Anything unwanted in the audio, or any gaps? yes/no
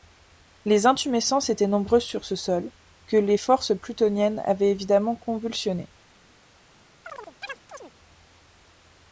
yes